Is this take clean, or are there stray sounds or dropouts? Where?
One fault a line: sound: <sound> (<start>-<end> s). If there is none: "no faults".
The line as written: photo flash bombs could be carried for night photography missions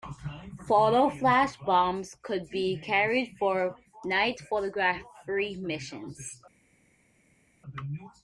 no faults